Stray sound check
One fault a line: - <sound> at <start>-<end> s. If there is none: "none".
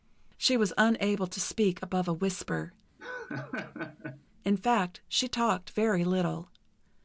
- laugh at 3.0-4.2 s